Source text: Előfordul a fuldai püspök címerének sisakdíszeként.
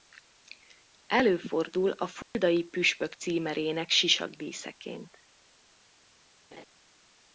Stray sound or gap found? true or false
true